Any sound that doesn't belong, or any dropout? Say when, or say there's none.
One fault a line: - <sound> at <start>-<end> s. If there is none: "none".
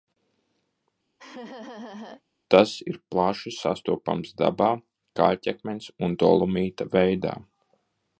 - laugh at 1.2-2.2 s